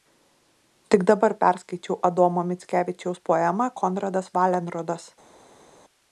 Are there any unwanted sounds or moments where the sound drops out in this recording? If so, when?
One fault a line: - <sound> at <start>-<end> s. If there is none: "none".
none